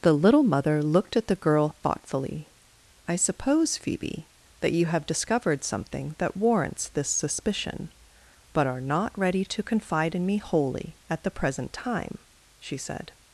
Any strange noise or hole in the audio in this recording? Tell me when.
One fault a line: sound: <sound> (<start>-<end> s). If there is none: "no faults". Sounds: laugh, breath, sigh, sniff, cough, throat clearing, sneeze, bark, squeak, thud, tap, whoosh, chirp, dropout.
no faults